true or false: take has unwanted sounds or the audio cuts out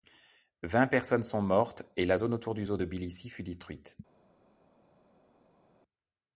false